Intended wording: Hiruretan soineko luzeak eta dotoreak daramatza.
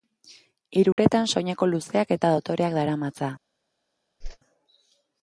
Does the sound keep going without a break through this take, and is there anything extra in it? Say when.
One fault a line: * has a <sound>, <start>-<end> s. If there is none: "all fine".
* has a dropout, 0.9-1.0 s
* has a whoosh, 4.2-4.4 s